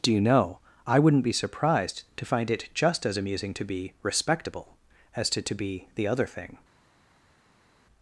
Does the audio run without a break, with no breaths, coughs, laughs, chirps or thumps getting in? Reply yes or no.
yes